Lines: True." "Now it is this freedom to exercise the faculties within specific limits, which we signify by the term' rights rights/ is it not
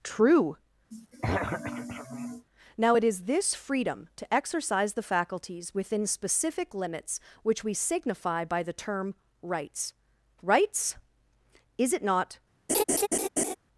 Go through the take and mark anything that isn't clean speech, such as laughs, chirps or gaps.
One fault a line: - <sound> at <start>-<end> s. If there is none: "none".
- throat clearing at 0.9-2.5 s
- laugh at 12.7-13.6 s